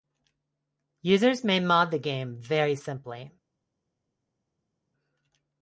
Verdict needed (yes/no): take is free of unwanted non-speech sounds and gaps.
yes